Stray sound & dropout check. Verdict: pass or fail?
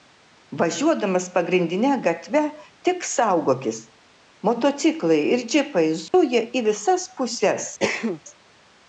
fail